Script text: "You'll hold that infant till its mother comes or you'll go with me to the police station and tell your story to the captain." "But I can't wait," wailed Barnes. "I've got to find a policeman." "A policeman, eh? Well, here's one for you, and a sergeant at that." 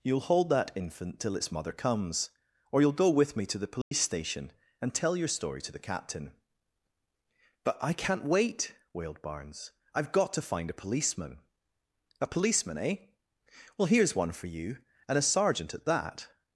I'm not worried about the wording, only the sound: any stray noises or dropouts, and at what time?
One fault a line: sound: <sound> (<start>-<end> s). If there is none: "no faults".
sound: dropout (3.8-3.9 s)